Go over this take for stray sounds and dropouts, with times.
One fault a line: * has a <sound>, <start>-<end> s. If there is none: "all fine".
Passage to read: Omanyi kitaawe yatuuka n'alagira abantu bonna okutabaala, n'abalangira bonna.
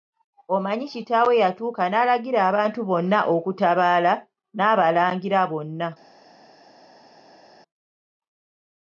all fine